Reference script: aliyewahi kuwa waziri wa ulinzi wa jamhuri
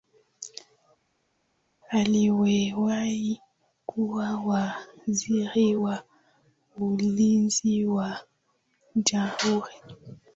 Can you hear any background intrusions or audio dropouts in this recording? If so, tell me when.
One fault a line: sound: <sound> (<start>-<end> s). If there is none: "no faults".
no faults